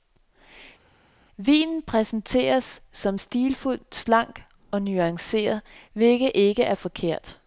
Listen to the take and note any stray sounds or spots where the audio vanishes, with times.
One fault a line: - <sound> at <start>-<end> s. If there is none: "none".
none